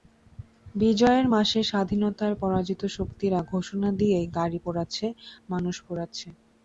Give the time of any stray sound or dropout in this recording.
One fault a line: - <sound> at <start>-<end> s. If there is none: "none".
none